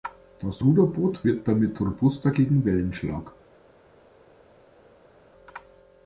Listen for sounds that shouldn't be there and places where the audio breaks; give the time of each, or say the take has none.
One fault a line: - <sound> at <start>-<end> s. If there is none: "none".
none